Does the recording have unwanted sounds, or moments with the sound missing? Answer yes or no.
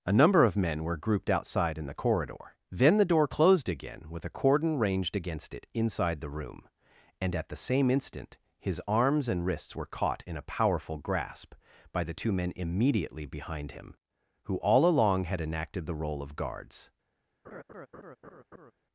yes